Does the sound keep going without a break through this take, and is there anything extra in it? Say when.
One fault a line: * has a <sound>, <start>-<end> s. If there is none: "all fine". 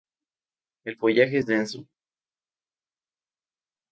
all fine